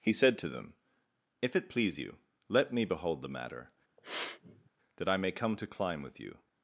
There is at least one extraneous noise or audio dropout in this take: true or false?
true